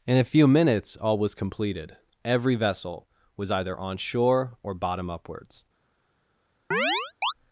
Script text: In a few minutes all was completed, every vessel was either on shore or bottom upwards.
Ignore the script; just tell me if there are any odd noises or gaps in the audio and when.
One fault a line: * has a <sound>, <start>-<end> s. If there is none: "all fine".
* has a chirp, 6.7-7.3 s